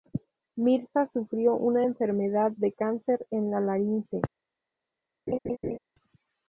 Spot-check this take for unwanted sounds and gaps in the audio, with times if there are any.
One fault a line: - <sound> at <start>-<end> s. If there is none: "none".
- laugh at 5.3-5.8 s